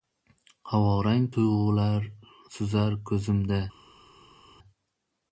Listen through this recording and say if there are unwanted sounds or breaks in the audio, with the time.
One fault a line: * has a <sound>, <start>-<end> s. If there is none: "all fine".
all fine